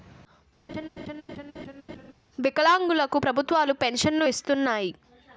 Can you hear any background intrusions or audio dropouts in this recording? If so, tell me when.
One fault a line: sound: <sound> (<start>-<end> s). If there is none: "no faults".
sound: laugh (0.7-2.1 s)